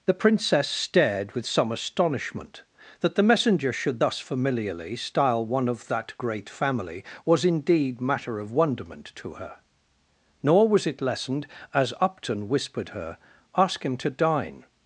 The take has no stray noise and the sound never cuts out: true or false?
true